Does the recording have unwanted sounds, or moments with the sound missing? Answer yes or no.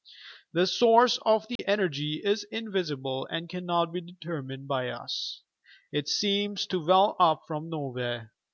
yes